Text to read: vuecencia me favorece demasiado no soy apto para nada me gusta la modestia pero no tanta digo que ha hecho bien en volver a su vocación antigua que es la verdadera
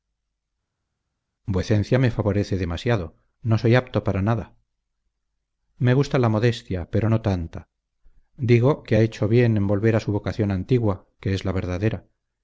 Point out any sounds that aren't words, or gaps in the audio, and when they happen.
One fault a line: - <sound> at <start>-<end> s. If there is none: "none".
none